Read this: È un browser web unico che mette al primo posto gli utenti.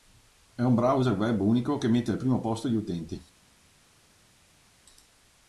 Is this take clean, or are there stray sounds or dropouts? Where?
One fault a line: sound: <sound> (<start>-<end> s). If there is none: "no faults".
no faults